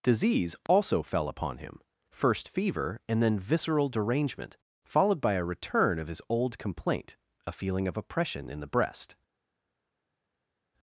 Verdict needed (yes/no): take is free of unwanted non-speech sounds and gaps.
yes